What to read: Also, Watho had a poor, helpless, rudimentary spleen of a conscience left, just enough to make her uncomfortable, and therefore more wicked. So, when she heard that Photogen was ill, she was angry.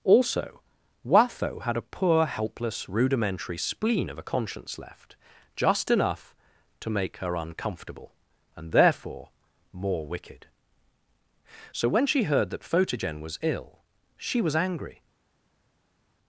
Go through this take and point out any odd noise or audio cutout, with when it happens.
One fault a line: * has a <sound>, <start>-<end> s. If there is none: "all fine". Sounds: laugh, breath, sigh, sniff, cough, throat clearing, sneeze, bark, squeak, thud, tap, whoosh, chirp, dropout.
all fine